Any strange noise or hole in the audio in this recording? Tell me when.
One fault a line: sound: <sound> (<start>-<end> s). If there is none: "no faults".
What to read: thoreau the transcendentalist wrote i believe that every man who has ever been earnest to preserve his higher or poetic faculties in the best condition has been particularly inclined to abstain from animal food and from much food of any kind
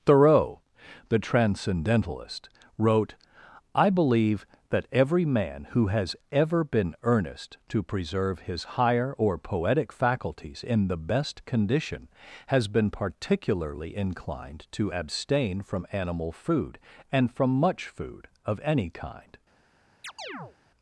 sound: chirp (20.0-20.6 s)